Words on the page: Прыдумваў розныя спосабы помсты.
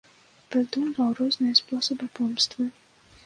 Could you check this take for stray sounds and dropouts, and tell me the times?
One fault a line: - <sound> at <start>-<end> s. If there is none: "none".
none